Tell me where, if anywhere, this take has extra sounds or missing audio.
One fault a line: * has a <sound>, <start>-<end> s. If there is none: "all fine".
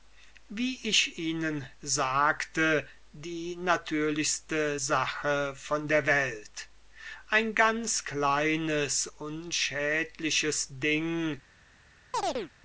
* has a chirp, 12.1-12.5 s